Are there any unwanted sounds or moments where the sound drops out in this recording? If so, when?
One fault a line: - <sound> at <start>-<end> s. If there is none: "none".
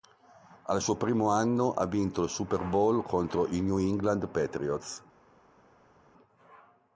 none